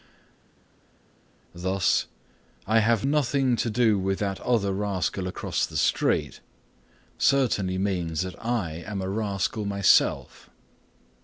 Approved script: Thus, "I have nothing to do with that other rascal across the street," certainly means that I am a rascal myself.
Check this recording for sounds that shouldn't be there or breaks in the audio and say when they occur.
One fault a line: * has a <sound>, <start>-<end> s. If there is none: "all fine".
all fine